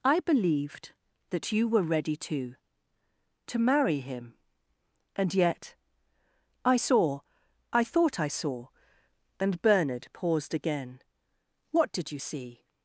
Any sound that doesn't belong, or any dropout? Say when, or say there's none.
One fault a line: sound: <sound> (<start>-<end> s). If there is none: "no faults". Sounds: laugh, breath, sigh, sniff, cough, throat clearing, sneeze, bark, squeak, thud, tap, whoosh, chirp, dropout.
no faults